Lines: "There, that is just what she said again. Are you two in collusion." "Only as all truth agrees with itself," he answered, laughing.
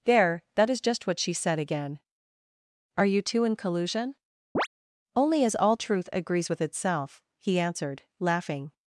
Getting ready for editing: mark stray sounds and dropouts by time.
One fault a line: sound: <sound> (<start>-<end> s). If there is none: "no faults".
sound: chirp (4.5-4.7 s)